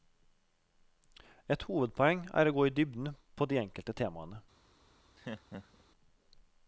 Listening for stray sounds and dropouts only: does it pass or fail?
fail